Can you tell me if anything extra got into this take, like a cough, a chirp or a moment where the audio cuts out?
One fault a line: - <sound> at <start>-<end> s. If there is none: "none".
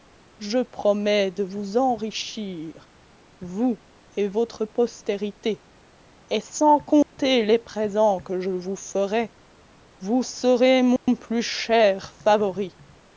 - dropout at 7.0-7.1 s
- dropout at 11.0-11.1 s